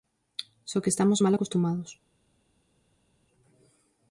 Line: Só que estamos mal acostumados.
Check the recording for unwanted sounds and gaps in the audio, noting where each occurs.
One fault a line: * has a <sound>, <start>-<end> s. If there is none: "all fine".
all fine